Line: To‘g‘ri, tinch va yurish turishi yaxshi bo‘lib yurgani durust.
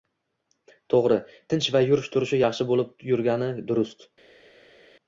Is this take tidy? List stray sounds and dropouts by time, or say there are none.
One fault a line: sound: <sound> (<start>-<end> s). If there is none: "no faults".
no faults